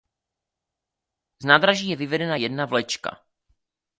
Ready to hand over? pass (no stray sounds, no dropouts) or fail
pass